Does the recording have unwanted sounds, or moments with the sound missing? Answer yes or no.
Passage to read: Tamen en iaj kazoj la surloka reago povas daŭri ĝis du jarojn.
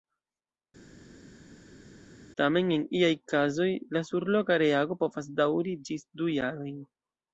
no